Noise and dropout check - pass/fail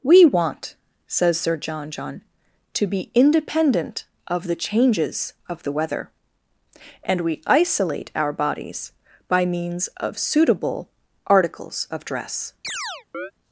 fail